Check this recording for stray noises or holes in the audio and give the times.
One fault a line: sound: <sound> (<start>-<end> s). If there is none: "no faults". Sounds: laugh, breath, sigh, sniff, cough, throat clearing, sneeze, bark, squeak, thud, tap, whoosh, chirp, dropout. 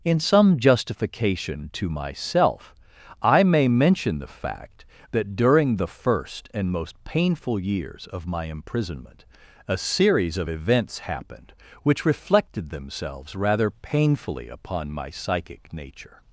no faults